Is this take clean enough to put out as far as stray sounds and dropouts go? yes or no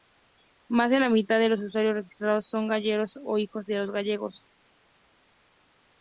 yes